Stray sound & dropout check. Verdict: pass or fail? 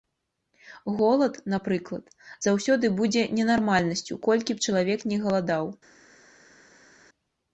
pass